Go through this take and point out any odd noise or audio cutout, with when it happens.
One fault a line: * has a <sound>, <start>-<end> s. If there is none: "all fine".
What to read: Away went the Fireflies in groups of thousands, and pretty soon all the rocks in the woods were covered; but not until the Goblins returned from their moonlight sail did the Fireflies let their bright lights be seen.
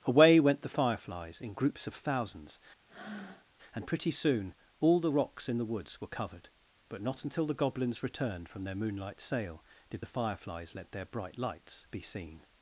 * has a breath, 2.9-3.5 s